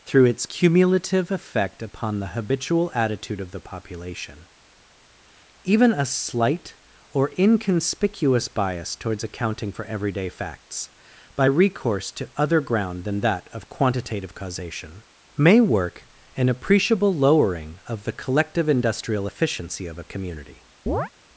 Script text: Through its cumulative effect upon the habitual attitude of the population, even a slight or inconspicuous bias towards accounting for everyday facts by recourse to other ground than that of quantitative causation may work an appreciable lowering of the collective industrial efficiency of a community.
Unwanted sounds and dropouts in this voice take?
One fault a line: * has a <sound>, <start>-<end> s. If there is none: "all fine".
* has a chirp, 20.9-21.1 s